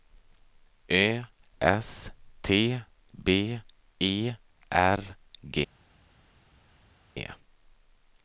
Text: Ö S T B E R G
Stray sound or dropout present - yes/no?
no